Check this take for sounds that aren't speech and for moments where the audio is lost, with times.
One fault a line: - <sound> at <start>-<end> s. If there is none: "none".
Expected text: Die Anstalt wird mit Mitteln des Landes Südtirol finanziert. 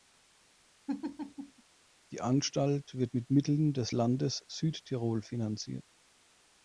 - laugh at 0.9-1.6 s